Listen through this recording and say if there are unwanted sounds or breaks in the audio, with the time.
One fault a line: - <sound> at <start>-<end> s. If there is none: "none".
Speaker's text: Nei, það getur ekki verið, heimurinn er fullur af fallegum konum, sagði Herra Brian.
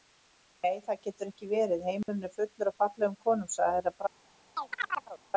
- dropout at 2.0-2.1 s
- chirp at 4.5-5.2 s